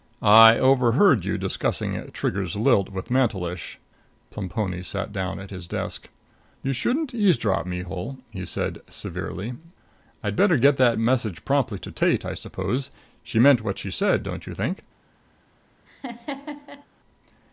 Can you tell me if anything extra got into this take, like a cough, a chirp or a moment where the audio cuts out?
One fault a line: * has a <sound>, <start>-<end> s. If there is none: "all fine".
* has a laugh, 15.9-16.9 s